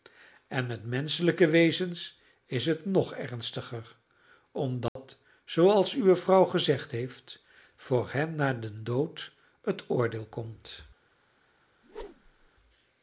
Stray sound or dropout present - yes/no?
yes